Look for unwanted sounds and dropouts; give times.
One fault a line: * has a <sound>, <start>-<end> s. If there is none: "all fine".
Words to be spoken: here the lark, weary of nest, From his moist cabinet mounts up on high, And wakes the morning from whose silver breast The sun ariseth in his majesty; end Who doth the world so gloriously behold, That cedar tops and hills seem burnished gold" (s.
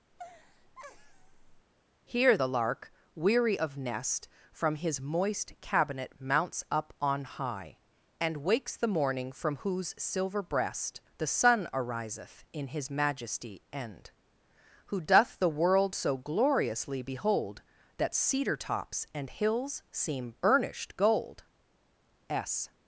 * has a laugh, 0.1-1.7 s